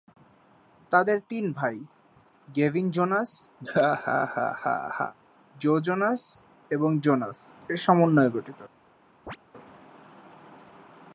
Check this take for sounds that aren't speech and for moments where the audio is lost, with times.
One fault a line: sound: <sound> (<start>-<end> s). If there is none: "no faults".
sound: laugh (3.6-5.1 s)
sound: chirp (9.3-9.4 s)